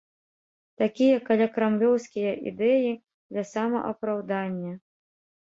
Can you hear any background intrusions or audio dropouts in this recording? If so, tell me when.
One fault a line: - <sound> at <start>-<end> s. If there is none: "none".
none